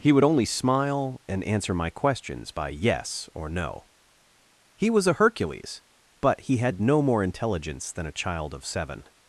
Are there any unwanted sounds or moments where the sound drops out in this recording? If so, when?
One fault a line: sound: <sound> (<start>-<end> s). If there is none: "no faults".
no faults